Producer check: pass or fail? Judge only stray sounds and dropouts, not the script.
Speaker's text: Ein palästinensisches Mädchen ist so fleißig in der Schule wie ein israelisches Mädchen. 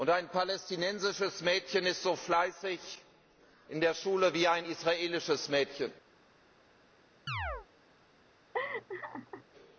fail